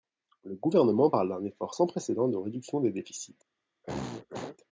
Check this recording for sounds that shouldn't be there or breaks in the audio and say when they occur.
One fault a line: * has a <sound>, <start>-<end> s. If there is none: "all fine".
* has a throat clearing, 3.8-4.6 s